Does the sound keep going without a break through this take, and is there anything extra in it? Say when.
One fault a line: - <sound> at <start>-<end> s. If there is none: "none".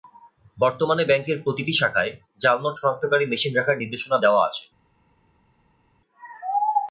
none